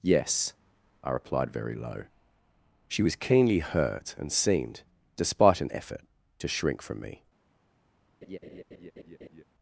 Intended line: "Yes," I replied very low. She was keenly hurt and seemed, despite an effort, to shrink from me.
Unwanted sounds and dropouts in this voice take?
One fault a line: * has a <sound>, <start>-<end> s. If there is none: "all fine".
* has a laugh, 8.2-9.4 s